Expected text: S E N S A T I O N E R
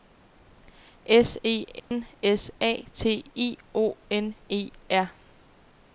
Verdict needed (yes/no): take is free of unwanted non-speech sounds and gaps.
no